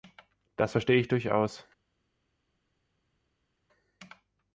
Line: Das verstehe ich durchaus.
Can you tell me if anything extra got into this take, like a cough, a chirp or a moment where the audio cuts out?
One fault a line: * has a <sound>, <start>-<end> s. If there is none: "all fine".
all fine